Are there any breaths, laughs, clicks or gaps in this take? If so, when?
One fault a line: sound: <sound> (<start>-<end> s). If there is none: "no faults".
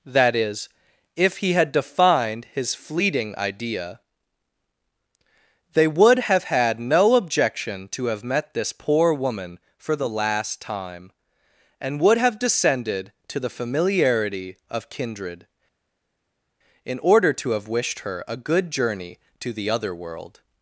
no faults